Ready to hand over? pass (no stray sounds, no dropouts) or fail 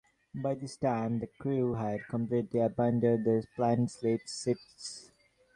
pass